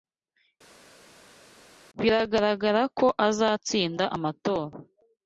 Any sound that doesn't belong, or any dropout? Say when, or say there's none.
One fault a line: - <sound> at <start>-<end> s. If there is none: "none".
none